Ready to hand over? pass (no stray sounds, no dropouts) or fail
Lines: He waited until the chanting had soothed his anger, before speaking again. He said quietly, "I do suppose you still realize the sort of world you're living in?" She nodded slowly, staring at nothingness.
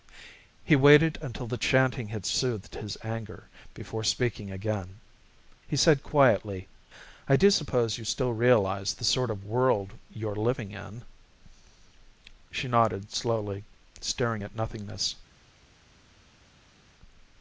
pass